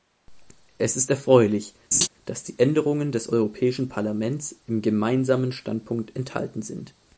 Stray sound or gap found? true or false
true